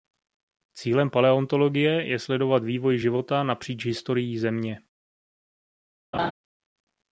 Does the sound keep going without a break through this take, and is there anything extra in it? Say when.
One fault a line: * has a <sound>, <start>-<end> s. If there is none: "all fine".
* has a laugh, 6.1-6.3 s